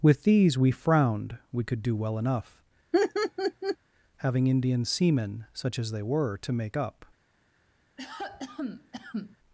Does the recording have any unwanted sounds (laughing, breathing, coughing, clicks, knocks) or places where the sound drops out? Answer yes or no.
yes